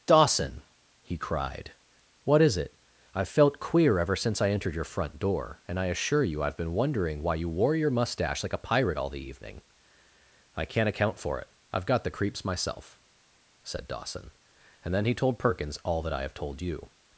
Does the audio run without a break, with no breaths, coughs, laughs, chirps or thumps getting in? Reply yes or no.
yes